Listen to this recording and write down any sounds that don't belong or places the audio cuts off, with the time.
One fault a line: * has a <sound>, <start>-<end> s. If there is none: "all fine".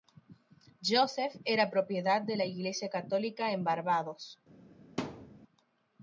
* has a thud, 5.0-5.4 s